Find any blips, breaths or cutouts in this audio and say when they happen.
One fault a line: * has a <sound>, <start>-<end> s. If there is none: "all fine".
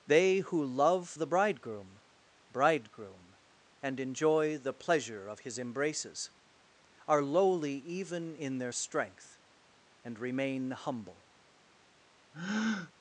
* has a breath, 12.3-12.9 s